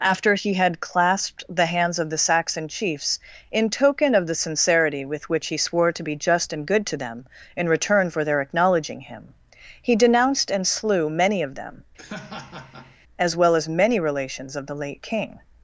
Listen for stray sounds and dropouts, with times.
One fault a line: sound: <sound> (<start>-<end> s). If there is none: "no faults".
sound: laugh (12.0-13.0 s)